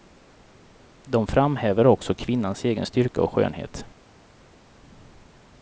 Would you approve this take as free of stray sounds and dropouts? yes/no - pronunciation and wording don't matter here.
yes